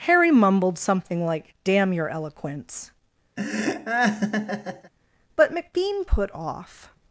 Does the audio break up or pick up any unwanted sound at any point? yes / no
yes